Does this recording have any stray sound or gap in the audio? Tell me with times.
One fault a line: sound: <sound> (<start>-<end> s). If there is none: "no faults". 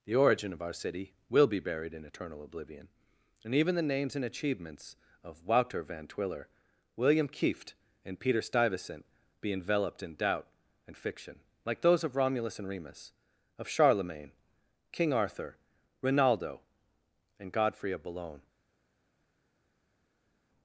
no faults